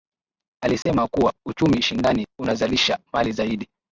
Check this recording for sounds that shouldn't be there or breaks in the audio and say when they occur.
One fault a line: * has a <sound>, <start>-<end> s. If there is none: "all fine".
* has a dropout, 0.8-0.9 s